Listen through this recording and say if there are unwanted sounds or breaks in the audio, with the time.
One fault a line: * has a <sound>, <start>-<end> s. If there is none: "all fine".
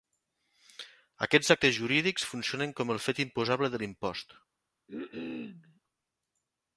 * has a cough, 4.9-5.8 s